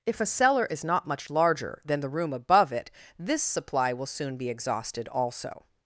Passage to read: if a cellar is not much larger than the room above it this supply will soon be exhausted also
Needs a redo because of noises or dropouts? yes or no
no